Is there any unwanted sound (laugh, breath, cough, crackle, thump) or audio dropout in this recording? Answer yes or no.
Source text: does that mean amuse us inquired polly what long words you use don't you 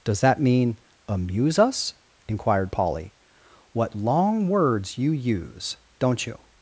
no